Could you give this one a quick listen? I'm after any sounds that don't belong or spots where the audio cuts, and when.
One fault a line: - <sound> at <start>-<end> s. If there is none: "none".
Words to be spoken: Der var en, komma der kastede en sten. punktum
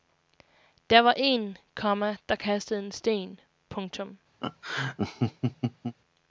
- laugh at 4.4-6.0 s